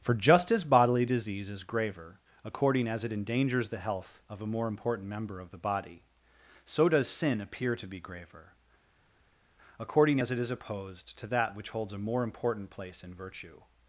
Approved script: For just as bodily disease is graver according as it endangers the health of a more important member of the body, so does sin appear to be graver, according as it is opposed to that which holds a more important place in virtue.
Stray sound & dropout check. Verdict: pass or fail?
pass